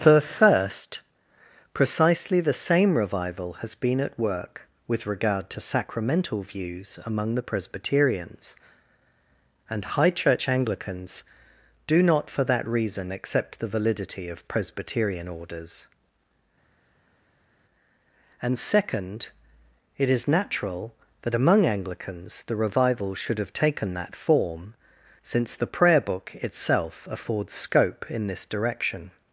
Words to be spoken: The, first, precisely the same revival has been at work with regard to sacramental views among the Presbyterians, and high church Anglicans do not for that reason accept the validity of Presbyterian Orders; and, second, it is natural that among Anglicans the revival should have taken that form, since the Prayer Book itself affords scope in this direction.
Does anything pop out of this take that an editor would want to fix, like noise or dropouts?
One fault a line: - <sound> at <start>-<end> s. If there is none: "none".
none